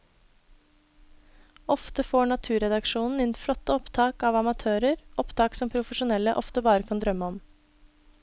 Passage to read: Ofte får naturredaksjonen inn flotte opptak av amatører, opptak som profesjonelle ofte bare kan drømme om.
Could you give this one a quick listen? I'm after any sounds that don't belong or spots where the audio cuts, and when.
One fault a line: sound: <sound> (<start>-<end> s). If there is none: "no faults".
no faults